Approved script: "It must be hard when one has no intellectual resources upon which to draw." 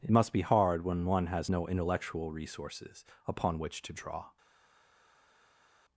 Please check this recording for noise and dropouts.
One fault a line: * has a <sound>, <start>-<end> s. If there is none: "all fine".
all fine